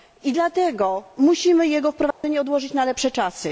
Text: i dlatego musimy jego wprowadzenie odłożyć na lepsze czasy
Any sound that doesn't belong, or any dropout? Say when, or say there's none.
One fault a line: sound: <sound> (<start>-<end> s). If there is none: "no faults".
sound: dropout (2.1-2.2 s)